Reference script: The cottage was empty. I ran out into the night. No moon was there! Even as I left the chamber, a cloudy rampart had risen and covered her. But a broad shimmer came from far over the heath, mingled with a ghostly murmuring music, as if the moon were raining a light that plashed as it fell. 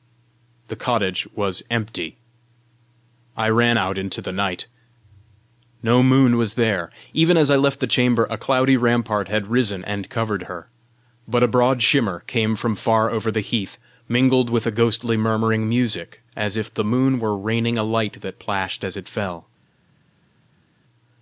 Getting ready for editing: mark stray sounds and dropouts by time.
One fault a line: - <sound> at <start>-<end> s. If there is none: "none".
none